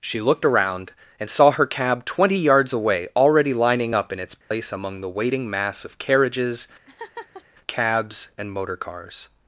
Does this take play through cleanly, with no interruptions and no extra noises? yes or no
no